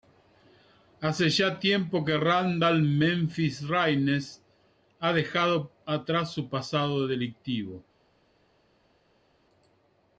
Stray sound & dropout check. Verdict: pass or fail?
pass